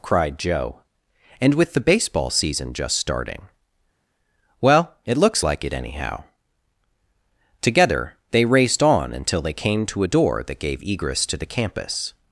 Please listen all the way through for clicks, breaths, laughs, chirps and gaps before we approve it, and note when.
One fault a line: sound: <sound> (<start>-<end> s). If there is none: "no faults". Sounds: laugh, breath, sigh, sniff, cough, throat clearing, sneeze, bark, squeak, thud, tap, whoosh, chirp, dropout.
no faults